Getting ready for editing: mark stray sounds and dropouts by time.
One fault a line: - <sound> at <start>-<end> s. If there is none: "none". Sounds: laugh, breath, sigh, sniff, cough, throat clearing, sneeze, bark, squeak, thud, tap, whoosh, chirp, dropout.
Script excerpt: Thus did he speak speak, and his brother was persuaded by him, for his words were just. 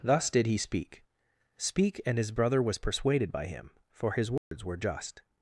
- dropout at 4.4-4.5 s